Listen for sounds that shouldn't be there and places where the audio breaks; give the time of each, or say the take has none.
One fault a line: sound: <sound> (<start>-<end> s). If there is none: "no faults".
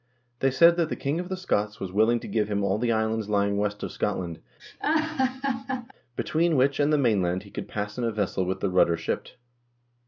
sound: laugh (4.6-5.9 s)